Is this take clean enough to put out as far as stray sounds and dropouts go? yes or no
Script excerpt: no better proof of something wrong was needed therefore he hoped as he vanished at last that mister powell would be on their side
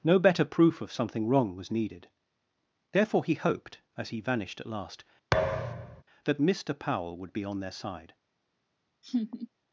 no